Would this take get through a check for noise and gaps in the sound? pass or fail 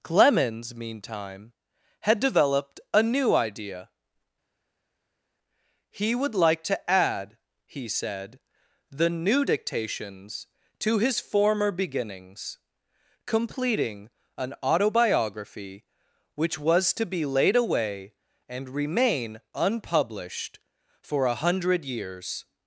pass